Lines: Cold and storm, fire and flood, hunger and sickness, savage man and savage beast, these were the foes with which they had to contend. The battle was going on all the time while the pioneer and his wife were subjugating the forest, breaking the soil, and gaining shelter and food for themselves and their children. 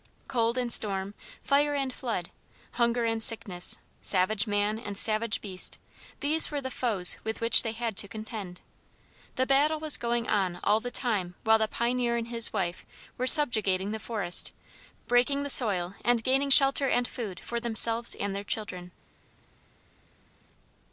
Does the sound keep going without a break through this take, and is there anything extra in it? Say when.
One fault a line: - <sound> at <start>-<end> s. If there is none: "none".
none